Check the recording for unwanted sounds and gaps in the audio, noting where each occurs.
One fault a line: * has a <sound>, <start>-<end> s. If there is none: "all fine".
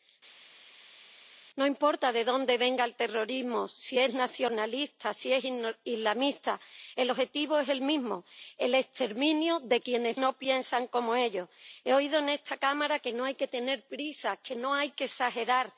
all fine